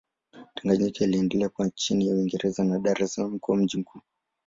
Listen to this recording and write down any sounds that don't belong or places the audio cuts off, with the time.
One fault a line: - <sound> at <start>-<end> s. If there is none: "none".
none